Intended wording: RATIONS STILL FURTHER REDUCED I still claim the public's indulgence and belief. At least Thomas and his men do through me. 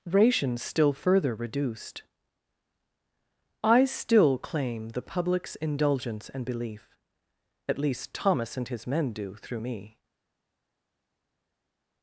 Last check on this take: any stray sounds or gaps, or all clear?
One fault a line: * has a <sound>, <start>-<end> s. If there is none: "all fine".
all fine